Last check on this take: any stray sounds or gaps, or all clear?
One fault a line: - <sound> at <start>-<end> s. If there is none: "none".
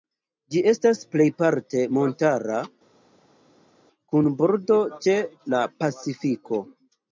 none